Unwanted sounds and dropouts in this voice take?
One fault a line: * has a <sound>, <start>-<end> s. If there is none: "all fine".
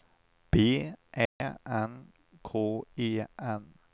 * has a dropout, 1.3-1.4 s